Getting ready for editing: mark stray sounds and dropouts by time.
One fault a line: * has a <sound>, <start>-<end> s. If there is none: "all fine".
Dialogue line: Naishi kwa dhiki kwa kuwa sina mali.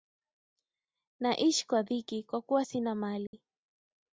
* has a dropout, 3.3-3.3 s